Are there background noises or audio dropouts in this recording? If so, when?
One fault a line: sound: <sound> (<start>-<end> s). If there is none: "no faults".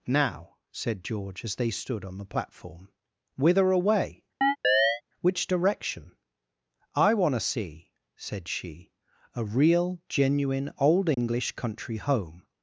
sound: chirp (4.4-5.0 s)
sound: dropout (11.1-11.2 s)